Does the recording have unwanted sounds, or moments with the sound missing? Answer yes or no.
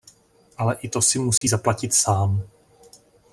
yes